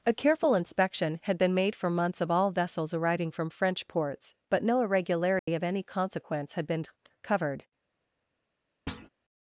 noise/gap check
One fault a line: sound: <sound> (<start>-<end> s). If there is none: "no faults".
sound: dropout (5.4-5.5 s)
sound: thud (8.9-9.1 s)